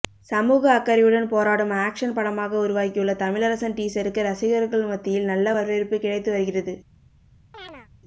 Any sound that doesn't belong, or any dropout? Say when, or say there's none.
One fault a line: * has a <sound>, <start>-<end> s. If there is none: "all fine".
* has a chirp, 7.5-7.9 s